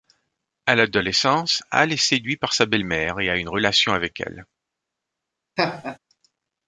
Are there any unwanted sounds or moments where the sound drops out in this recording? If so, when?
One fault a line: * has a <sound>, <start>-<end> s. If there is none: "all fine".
* has a laugh, 5.6-6.0 s